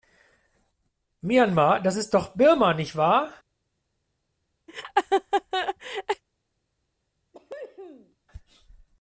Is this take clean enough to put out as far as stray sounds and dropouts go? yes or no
no